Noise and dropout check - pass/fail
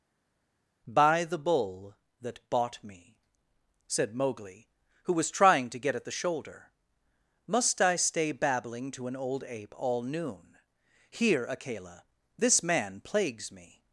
pass